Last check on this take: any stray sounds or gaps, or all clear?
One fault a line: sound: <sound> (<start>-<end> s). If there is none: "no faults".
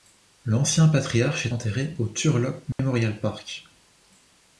sound: dropout (2.7-2.8 s)